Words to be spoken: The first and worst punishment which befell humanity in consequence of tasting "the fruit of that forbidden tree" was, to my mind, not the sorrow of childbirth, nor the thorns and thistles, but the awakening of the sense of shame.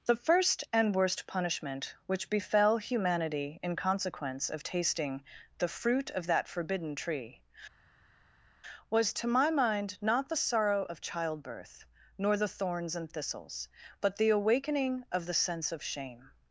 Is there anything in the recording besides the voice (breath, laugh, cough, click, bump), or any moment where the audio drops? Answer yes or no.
no